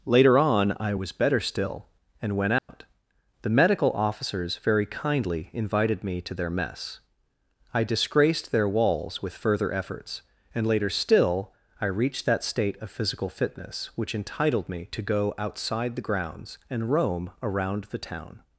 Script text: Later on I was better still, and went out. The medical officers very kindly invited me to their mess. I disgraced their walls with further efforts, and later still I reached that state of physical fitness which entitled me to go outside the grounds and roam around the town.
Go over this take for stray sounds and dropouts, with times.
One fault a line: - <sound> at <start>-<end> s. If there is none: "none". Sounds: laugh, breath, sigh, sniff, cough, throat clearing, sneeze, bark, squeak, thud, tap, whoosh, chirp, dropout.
- dropout at 2.6-2.7 s